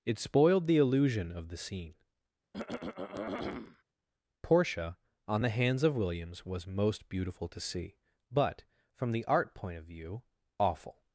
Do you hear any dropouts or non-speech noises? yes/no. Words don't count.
yes